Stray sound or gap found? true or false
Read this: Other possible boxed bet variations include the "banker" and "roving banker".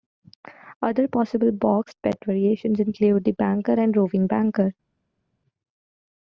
false